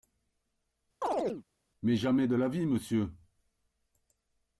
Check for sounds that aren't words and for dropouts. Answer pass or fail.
fail